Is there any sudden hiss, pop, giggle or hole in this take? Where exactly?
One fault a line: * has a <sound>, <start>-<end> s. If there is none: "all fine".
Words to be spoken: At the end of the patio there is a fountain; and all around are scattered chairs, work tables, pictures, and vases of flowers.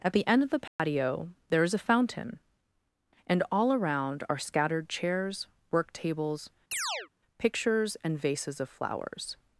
* has a dropout, 0.7-0.8 s
* has a chirp, 6.7-7.1 s